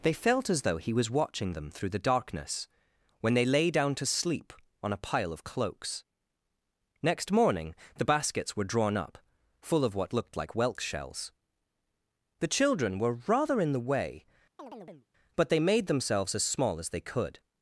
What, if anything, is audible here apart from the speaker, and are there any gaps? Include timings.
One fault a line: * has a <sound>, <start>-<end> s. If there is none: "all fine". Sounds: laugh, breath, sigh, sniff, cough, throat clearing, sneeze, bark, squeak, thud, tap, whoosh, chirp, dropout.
* has a chirp, 14.6-15.1 s